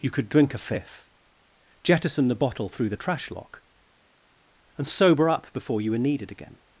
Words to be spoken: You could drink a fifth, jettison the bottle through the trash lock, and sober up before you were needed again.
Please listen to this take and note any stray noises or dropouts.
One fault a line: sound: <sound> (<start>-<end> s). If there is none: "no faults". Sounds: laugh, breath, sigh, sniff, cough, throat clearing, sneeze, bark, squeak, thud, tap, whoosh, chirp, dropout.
no faults